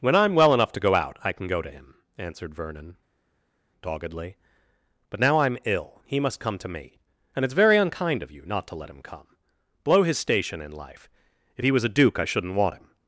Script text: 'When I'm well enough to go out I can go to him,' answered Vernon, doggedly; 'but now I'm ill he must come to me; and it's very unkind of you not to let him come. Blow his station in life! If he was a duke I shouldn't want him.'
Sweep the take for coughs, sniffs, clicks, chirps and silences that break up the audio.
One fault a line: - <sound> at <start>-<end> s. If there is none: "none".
none